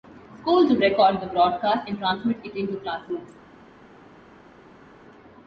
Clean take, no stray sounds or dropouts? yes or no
yes